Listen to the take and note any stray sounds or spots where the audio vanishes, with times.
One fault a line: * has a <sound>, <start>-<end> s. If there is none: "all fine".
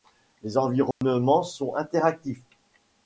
* has a dropout, 0.9-1.0 s